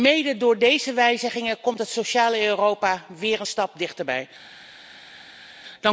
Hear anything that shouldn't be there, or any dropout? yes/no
no